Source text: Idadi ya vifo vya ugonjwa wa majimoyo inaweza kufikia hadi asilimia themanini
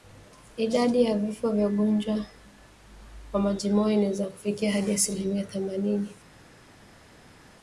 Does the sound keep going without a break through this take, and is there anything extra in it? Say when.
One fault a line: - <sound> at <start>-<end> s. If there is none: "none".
none